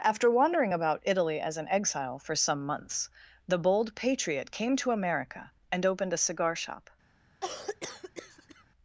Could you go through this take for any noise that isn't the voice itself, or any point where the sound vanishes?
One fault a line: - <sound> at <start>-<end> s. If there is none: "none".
- cough at 7.4-8.6 s